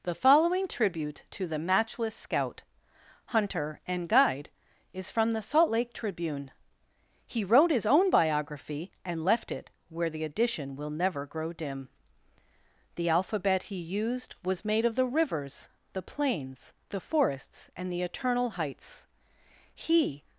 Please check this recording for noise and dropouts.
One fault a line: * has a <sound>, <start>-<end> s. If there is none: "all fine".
all fine